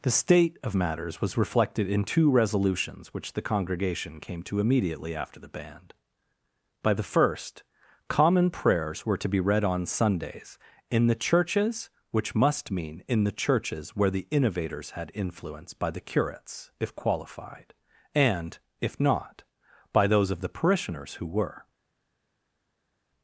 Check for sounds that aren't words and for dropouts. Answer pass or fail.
pass